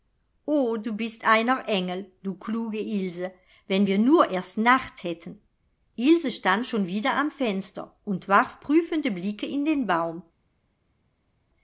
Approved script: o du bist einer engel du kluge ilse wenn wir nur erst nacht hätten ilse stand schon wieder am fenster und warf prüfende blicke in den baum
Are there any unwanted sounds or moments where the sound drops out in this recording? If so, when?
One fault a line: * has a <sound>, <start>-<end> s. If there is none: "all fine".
all fine